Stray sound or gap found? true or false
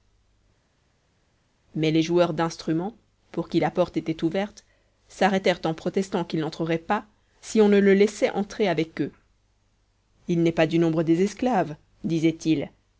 false